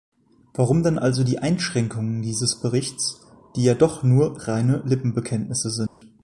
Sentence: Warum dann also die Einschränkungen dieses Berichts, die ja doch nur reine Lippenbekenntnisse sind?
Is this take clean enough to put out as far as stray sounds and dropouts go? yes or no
no